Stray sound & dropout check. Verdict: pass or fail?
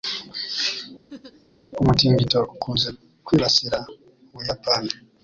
fail